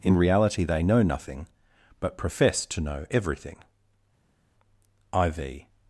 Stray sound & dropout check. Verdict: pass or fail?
pass